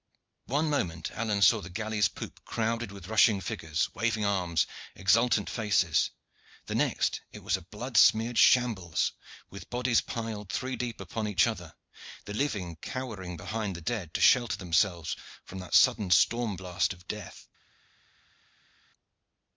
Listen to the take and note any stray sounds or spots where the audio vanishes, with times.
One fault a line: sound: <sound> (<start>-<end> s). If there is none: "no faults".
no faults